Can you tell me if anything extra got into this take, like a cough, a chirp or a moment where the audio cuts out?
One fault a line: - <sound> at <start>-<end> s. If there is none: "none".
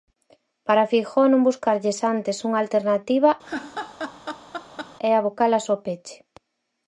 - laugh at 3.4-5.0 s